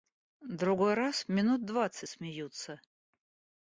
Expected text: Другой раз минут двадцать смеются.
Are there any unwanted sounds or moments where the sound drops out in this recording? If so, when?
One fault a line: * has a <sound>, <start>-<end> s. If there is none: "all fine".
all fine